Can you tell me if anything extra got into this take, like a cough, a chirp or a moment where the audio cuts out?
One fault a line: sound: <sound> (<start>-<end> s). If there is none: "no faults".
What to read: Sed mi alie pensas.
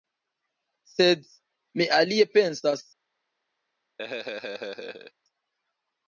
sound: laugh (4.0-5.1 s)